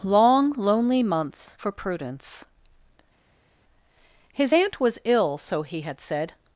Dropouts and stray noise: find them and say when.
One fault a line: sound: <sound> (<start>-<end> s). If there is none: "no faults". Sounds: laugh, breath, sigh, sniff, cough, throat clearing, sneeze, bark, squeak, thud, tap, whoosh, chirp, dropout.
no faults